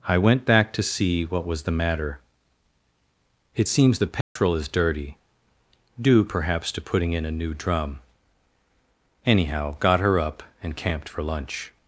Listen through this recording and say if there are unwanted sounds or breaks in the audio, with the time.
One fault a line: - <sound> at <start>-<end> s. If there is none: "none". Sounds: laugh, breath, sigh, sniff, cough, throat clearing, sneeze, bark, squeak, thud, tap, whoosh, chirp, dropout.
- dropout at 4.2-4.4 s